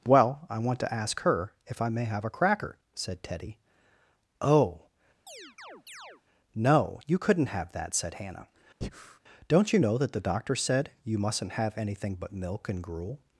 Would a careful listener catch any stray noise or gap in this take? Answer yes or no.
yes